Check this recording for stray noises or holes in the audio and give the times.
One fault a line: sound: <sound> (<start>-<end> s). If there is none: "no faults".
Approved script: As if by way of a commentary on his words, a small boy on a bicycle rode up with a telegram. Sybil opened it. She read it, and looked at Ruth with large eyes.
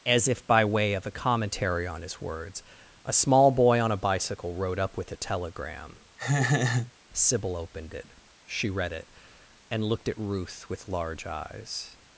sound: laugh (6.2-6.9 s)